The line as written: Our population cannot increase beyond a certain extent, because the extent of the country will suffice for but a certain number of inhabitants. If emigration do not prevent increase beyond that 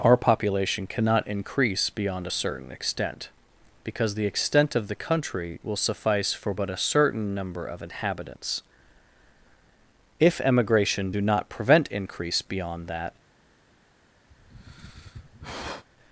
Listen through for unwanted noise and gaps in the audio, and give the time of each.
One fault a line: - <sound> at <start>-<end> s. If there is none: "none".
- sigh at 14.3-15.9 s